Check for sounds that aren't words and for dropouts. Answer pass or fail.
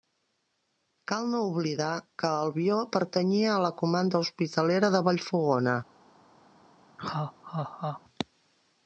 fail